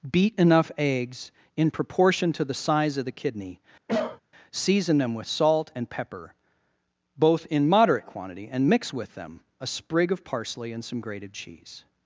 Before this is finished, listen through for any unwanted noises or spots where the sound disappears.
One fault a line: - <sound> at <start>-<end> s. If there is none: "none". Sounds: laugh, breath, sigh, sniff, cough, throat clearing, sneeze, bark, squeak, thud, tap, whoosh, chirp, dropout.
- cough at 3.9-4.2 s